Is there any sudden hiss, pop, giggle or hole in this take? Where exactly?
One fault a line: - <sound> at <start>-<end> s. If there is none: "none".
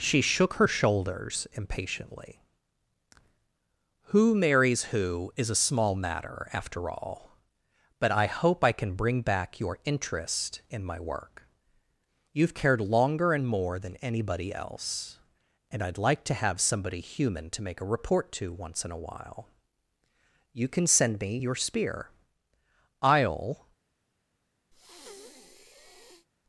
- breath at 24.7-26.3 s